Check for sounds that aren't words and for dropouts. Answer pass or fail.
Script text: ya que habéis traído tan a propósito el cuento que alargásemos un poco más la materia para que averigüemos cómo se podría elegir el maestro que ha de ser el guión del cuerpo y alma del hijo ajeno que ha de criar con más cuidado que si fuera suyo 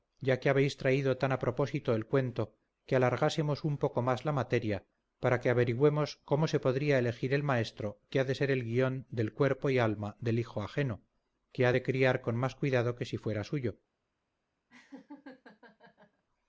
fail